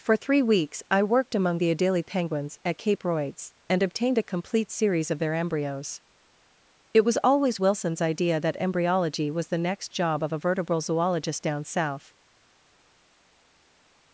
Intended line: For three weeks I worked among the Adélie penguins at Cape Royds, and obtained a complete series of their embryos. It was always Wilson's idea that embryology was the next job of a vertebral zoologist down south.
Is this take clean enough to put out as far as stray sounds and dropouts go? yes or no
yes